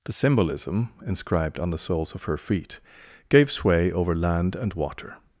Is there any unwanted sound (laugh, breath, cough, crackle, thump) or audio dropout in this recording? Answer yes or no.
no